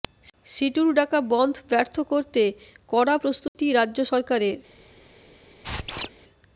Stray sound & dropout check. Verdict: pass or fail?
fail